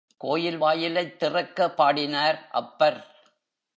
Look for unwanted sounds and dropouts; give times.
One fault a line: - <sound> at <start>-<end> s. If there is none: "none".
none